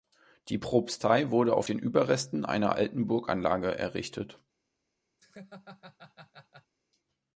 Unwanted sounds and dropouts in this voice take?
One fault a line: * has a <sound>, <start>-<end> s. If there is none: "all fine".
* has a laugh, 5.2-6.7 s